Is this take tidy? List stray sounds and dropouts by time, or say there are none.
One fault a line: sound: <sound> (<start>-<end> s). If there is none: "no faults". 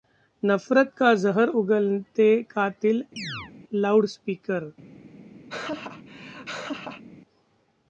sound: chirp (3.2-3.5 s)
sound: laugh (5.5-7.0 s)